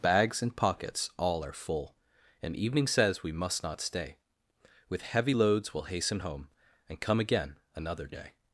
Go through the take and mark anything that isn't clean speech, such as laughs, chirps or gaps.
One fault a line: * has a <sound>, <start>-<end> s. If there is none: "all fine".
all fine